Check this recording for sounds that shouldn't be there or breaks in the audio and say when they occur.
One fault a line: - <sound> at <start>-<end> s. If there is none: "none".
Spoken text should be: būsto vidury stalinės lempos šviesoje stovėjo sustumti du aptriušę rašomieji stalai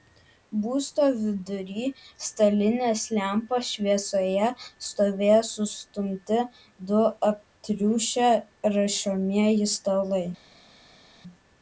none